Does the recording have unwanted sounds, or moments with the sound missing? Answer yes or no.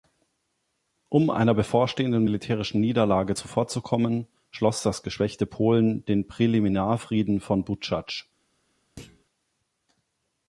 yes